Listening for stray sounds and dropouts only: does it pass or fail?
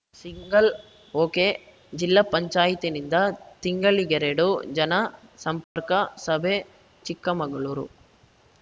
fail